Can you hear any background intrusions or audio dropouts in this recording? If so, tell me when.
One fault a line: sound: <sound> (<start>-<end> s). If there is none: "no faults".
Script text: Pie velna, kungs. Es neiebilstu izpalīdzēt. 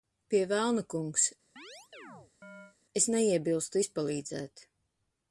sound: chirp (1.6-2.8 s)